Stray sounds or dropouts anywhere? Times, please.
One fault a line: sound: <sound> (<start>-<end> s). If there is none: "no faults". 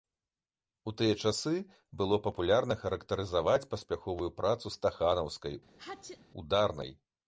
sound: sneeze (5.7-6.2 s)